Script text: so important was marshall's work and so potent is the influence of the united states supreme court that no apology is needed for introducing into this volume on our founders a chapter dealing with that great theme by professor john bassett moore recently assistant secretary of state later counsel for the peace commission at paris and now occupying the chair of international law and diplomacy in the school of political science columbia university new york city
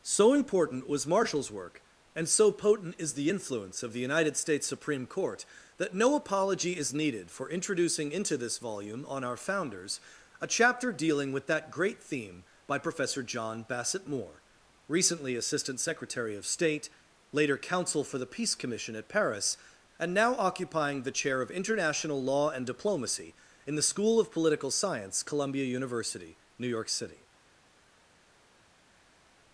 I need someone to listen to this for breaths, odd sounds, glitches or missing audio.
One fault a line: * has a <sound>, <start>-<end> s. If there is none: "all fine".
all fine